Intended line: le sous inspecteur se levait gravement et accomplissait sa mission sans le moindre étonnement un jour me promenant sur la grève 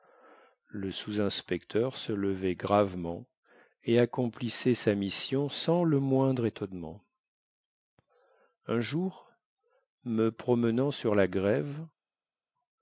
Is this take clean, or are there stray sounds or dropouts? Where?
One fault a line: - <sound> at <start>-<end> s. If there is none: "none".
none